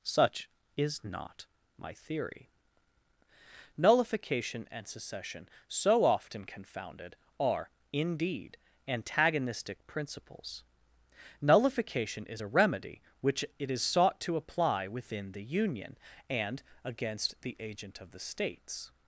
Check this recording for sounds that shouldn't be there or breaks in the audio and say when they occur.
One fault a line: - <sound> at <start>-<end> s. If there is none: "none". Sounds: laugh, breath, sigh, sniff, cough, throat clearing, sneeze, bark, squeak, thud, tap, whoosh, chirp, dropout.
none